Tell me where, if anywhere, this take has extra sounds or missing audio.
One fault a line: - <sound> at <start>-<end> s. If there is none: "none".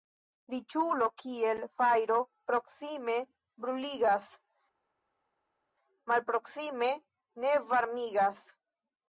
none